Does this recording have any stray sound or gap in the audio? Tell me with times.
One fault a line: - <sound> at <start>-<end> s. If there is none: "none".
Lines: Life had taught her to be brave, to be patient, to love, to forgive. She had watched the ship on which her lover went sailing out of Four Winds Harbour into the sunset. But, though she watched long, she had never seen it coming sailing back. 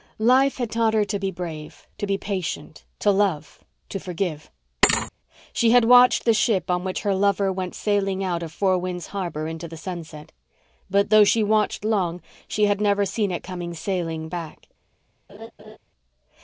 - thud at 4.8-5.1 s
- laugh at 15.3-15.8 s